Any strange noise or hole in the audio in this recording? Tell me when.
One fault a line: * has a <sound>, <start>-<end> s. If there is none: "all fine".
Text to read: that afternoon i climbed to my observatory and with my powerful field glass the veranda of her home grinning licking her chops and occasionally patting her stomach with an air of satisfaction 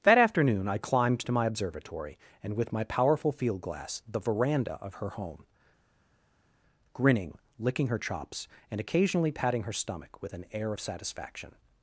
all fine